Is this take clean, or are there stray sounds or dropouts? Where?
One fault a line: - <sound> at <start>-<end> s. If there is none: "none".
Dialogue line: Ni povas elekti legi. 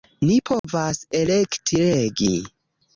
- dropout at 0.6-0.6 s